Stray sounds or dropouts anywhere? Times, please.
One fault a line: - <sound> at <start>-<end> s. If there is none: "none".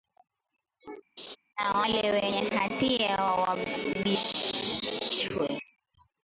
- laugh at 1.2-1.4 s